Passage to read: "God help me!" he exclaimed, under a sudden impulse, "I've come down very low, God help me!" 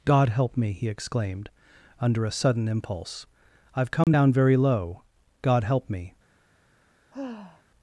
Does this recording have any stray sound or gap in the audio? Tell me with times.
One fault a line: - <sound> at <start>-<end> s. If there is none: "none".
- dropout at 4.0-4.1 s
- sigh at 7.1-7.6 s